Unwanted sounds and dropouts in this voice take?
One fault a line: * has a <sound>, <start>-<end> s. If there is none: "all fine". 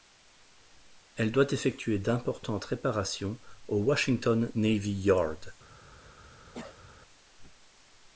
* has a cough, 6.5-6.9 s